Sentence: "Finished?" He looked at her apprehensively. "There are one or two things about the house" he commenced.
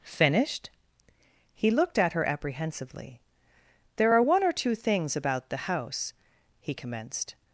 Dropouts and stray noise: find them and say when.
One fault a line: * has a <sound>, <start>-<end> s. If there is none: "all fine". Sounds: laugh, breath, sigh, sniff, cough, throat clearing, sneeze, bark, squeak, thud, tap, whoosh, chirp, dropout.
all fine